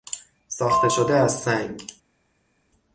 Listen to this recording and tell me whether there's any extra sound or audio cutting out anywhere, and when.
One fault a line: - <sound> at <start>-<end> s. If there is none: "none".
none